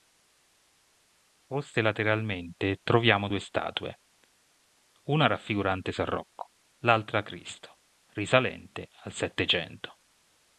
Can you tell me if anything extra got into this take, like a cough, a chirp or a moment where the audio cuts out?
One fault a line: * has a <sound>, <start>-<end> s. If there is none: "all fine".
all fine